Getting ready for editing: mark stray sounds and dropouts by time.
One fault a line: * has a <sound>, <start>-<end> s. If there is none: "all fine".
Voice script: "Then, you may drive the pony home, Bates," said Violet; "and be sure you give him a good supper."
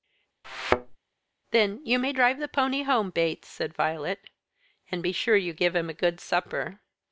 * has a thud, 0.4-1.0 s